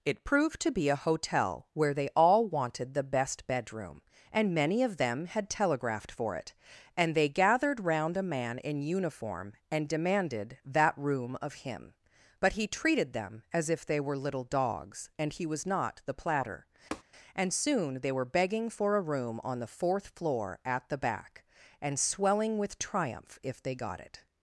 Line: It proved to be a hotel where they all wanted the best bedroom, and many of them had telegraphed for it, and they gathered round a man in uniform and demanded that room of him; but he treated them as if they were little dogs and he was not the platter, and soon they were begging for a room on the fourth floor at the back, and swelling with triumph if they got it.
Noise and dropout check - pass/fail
fail